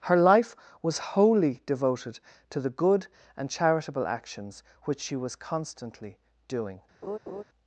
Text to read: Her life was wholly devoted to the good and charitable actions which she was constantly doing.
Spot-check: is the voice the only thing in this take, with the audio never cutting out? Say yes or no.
no